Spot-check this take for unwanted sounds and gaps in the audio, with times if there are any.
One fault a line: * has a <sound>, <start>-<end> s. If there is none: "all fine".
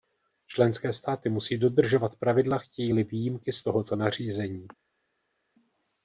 all fine